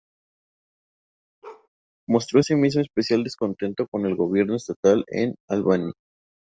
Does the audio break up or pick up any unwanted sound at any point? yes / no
yes